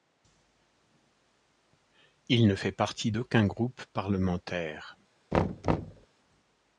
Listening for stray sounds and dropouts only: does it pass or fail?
fail